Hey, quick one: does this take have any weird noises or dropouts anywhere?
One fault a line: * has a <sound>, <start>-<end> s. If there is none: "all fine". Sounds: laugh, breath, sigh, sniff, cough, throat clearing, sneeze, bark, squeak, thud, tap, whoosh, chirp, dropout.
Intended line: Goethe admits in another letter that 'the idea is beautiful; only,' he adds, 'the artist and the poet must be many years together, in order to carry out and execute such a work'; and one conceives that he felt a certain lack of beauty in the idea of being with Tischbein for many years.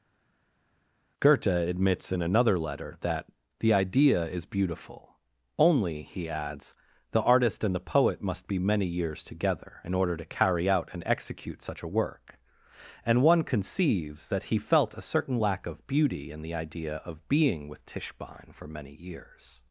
all fine